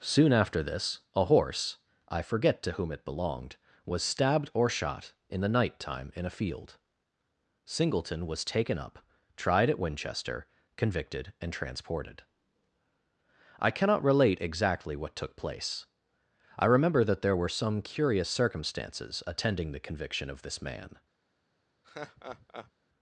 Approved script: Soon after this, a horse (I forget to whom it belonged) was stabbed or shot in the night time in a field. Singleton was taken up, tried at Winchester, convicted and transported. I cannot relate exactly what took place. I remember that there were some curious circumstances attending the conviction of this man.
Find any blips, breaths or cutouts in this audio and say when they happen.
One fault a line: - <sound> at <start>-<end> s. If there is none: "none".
- laugh at 21.8-22.7 s